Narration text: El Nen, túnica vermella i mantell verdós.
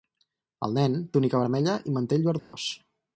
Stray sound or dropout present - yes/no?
yes